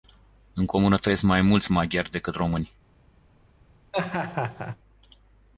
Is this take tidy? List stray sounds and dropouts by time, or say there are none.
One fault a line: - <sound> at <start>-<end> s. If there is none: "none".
- laugh at 3.9-4.8 s